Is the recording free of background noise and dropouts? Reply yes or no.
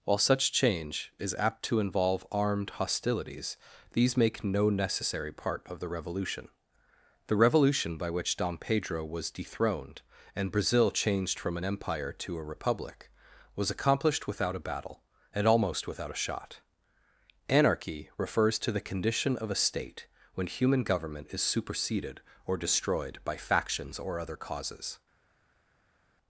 yes